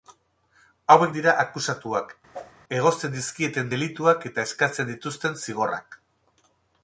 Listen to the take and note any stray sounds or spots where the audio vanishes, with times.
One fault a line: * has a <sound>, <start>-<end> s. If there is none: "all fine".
* has a whoosh, 2.3-2.5 s